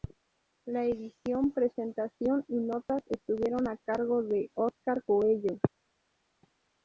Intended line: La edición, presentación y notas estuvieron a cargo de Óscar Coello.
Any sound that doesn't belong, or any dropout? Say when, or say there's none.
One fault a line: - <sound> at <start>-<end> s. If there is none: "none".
none